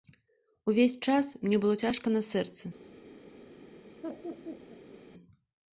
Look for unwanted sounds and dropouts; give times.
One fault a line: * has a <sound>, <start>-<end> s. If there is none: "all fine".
* has a laugh, 4.0-5.0 s